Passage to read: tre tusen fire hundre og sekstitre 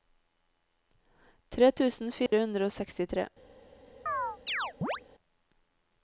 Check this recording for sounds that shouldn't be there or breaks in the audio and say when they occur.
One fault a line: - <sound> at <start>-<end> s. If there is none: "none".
- dropout at 2.3-2.3 s
- chirp at 4.1-5.0 s